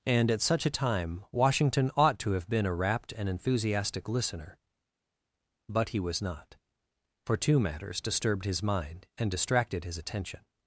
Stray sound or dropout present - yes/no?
no